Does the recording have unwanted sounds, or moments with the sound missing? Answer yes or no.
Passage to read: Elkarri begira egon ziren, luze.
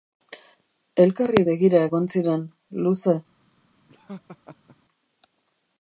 yes